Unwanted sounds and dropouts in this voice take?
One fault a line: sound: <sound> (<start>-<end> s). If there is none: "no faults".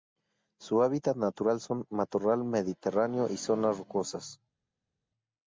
no faults